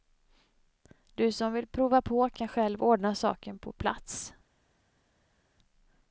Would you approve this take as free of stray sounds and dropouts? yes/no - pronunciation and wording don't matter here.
yes